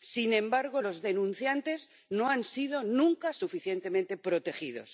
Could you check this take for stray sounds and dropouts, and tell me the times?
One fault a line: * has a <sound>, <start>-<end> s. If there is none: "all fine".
all fine